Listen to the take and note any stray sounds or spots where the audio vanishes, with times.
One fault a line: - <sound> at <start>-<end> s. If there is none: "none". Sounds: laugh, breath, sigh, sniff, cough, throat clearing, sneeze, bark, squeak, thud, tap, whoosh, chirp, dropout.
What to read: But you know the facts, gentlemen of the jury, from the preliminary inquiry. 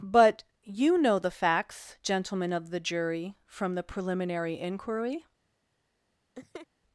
- laugh at 6.3-6.7 s